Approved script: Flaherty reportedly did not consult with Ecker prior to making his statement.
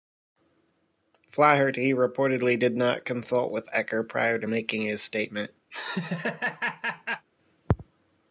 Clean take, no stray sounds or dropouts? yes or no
no